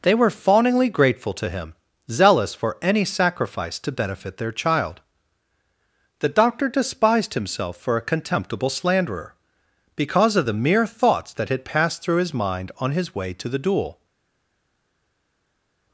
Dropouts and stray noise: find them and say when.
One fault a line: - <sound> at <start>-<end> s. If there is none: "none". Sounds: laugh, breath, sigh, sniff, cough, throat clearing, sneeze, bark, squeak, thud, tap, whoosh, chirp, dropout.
none